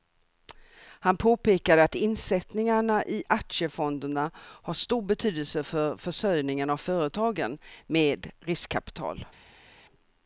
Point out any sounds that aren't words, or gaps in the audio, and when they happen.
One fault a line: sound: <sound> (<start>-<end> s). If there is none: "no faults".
no faults